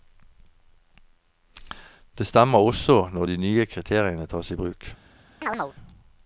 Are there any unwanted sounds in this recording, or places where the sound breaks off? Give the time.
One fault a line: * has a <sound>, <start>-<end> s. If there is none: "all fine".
* has a chirp, 5.4-5.7 s